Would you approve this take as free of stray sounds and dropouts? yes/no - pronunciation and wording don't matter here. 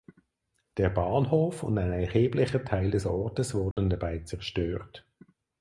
no